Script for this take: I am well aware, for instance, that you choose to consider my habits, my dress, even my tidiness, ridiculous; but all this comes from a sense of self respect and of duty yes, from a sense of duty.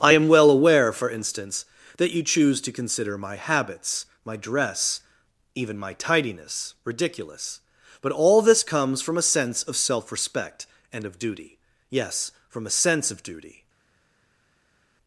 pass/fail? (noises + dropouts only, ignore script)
pass